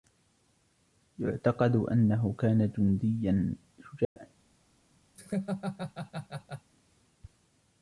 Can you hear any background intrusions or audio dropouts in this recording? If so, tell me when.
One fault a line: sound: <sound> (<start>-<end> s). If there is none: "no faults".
sound: dropout (4.0-4.2 s)
sound: laugh (5.1-6.7 s)